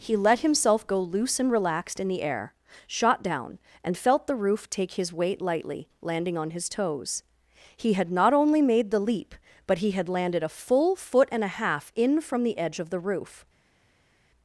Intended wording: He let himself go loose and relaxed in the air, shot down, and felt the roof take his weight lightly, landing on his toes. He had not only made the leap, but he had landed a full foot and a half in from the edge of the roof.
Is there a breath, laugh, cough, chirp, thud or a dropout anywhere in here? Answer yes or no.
no